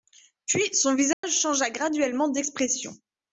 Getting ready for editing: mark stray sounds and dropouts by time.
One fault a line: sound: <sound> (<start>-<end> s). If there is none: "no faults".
sound: dropout (1.1-1.2 s)